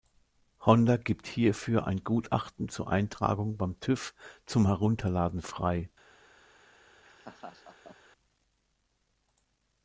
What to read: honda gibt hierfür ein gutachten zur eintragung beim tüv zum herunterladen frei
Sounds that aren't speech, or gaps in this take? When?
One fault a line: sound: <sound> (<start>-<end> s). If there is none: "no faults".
sound: laugh (7.0-8.0 s)